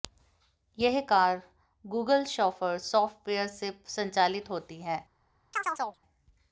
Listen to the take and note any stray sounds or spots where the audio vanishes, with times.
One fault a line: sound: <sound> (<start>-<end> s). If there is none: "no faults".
sound: chirp (5.5-6.0 s)